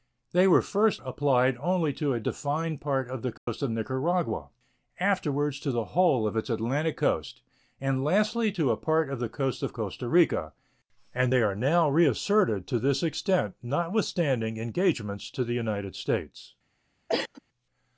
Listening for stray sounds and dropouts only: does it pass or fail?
fail